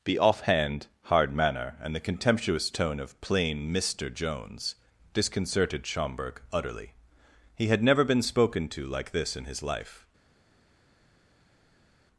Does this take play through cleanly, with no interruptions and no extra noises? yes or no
yes